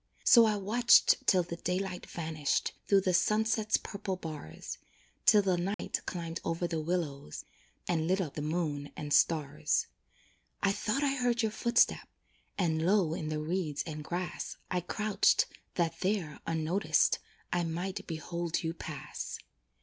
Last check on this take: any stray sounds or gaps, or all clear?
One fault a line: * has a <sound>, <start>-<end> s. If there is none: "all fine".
* has a dropout, 5.7-5.8 s